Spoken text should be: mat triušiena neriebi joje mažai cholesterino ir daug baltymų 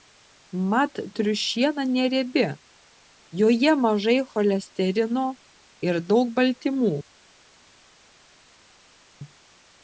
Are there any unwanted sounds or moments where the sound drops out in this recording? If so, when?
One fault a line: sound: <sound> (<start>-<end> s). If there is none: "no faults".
no faults